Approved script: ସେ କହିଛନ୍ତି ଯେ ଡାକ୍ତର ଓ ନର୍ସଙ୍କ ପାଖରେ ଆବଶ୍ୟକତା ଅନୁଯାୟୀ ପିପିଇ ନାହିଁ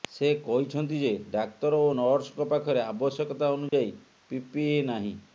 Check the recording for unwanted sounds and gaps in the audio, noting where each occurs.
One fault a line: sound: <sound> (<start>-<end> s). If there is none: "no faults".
sound: dropout (3.7-3.7 s)